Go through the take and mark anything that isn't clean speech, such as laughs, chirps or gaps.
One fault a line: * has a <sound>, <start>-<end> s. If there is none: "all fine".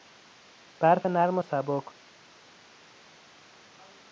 all fine